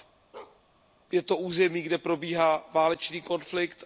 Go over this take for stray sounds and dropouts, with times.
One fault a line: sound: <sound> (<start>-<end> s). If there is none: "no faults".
sound: bark (0.3-0.6 s)